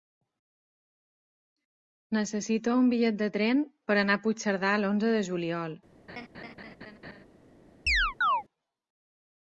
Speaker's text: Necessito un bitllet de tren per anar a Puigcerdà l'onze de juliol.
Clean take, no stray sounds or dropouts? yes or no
no